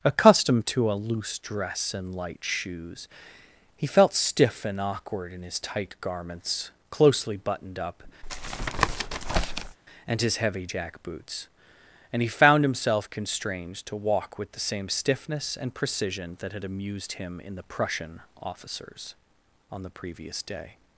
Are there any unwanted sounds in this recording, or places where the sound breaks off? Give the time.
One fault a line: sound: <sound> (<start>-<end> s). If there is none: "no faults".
sound: tap (8.2-9.8 s)